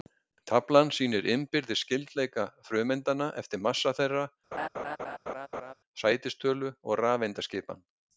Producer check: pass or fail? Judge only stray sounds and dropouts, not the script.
fail